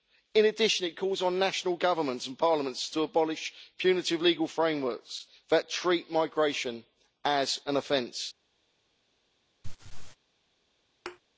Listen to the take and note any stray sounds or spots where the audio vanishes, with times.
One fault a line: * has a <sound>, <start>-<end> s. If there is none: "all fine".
* has a laugh, 9.6-10.2 s
* has a thud, 11.1-11.2 s